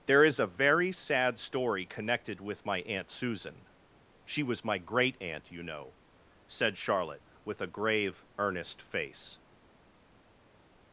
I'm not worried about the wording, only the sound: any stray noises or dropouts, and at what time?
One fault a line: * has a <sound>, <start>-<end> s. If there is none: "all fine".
all fine